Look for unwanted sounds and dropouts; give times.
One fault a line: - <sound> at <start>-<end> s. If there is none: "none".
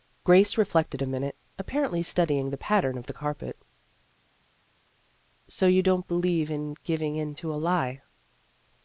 none